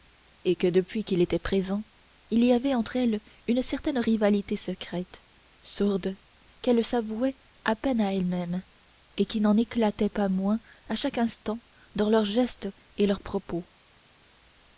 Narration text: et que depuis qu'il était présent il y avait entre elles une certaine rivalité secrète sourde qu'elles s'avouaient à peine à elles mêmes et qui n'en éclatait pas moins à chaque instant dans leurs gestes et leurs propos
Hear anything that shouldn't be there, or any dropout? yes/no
no